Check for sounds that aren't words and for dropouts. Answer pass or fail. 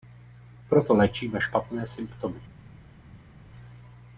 pass